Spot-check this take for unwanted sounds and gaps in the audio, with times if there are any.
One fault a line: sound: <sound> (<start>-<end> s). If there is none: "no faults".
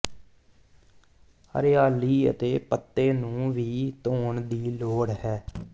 no faults